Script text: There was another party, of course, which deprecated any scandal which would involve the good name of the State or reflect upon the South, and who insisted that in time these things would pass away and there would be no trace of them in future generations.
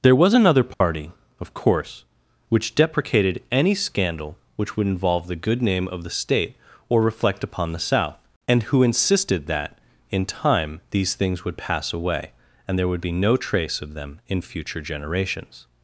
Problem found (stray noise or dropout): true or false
true